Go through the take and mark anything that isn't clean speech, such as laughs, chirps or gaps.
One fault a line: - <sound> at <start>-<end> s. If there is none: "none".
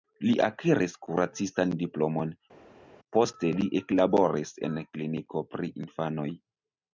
none